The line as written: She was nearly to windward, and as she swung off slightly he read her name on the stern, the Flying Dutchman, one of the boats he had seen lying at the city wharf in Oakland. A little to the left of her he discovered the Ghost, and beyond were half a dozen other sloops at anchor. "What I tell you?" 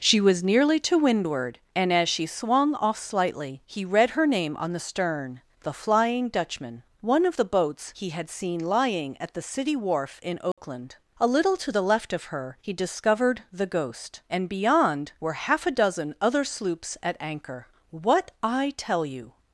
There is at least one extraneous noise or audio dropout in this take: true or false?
true